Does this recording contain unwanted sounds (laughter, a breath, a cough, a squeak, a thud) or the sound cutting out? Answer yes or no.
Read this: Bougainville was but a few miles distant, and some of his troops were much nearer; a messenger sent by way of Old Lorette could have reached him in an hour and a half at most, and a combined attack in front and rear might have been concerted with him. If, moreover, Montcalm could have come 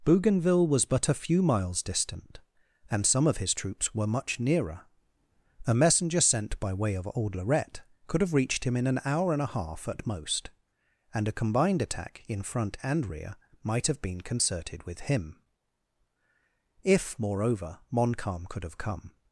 no